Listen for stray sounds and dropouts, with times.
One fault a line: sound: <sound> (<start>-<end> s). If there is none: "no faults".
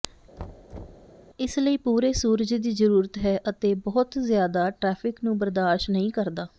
sound: thud (0.4-1.1 s)